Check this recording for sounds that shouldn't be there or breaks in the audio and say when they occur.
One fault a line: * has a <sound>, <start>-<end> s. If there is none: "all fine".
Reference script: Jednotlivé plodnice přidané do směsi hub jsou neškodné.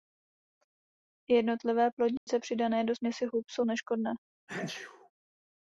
* has a dropout, 2.2-2.3 s
* has a sneeze, 4.5-5.1 s